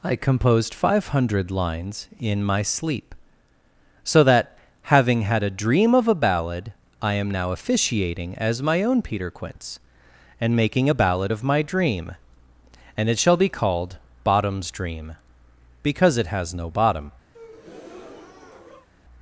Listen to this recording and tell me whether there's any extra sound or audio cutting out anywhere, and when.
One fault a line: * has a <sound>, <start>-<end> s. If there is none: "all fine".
* has a breath, 17.3-18.9 s